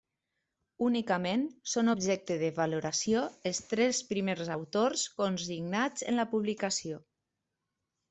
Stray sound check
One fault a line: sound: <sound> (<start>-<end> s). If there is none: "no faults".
no faults